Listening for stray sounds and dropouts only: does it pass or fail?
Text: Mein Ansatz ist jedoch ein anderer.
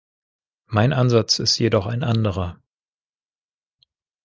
pass